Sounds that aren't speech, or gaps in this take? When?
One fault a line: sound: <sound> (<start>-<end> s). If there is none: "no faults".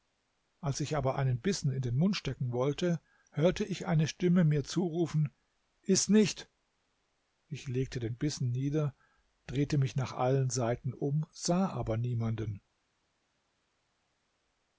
no faults